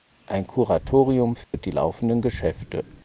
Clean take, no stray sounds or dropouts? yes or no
no